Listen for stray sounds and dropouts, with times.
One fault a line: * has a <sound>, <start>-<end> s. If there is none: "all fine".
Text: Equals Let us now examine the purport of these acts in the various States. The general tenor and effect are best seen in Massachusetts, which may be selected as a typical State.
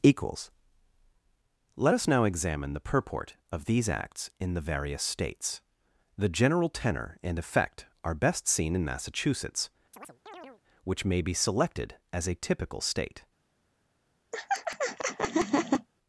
* has a chirp, 9.9-10.6 s
* has a laugh, 14.3-15.9 s